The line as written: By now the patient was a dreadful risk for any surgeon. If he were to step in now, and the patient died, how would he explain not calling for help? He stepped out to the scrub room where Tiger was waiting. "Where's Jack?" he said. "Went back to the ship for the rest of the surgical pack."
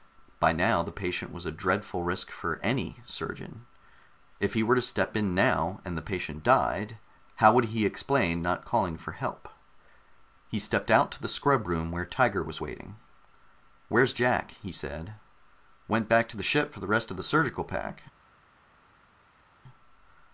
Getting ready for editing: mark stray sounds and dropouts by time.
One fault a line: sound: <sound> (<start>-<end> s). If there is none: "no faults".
no faults